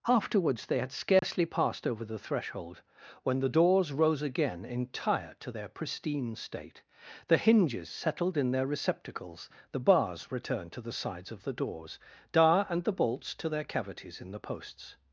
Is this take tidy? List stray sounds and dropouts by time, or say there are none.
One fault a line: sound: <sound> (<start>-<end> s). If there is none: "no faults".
sound: dropout (1.2-1.2 s)